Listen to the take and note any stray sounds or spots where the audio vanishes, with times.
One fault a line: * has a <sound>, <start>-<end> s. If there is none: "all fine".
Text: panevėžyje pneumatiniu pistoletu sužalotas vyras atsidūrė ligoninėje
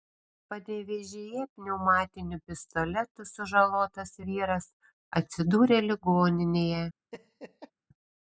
* has a laugh, 7.1-7.7 s